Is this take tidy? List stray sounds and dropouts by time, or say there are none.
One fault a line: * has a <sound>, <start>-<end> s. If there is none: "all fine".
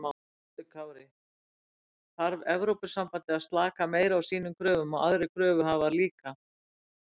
all fine